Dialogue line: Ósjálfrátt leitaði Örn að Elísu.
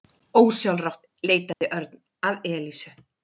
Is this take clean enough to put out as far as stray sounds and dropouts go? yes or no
no